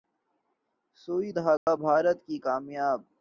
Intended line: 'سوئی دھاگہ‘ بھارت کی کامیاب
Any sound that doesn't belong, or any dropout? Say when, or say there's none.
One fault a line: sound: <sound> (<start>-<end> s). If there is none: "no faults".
sound: dropout (1.6-1.7 s)